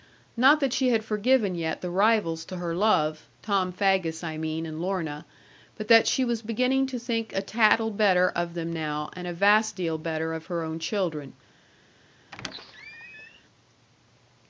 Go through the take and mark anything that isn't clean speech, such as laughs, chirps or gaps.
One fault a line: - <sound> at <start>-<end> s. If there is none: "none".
- squeak at 12.3-13.4 s